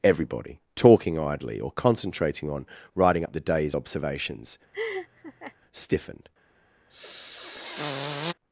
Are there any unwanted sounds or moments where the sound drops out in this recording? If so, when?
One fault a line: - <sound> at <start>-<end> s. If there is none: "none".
- laugh at 4.7-5.6 s
- sniff at 6.9-8.3 s